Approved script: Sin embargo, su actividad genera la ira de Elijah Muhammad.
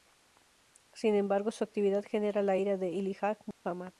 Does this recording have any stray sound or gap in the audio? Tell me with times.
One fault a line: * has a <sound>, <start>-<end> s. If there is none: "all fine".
* has a dropout, 3.5-3.7 s